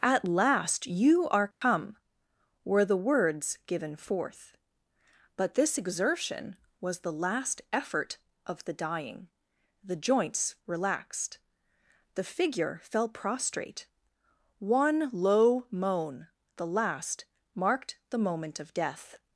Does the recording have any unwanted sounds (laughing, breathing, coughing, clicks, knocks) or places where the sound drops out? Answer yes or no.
yes